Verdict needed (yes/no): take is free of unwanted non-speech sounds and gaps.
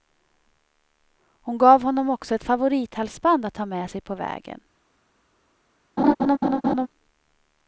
no